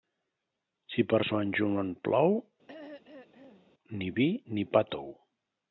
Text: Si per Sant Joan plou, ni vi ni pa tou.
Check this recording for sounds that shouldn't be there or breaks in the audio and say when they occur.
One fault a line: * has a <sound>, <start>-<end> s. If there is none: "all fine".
* has a throat clearing, 2.7-3.7 s